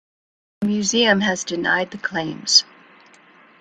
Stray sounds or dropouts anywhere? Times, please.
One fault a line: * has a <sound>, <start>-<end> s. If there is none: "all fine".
all fine